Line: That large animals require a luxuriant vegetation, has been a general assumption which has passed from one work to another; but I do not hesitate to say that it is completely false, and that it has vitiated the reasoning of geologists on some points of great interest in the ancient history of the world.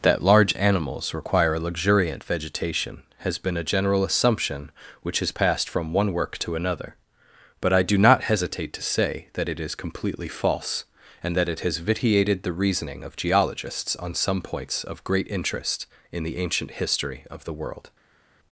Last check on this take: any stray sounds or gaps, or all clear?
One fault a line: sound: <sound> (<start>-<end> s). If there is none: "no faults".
no faults